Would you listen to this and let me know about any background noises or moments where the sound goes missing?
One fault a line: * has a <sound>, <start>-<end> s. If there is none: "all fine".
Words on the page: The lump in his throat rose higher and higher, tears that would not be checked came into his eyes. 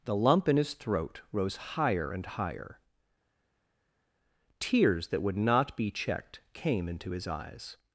all fine